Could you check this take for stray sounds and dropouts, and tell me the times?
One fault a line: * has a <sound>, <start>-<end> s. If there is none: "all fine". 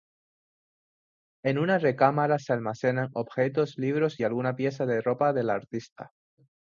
all fine